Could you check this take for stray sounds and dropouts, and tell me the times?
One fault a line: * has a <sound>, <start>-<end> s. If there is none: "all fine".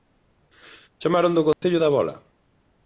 * has a dropout, 1.5-1.6 s